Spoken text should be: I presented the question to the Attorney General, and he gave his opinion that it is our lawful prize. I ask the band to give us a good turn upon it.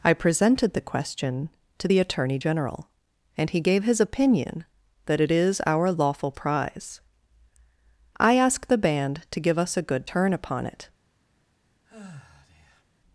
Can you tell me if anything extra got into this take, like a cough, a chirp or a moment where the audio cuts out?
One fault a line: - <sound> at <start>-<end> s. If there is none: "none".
- sigh at 11.9-12.8 s